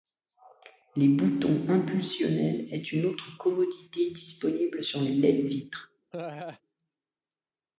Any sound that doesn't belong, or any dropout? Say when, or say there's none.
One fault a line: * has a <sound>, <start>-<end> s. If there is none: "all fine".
* has a laugh, 6.1-6.6 s